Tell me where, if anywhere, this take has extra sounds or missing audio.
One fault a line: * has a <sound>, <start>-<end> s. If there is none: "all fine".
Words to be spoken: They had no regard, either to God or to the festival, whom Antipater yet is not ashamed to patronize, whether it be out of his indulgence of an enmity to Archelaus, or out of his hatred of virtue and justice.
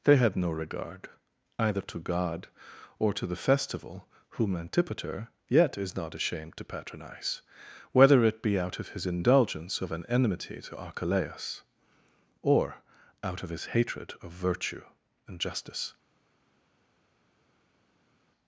all fine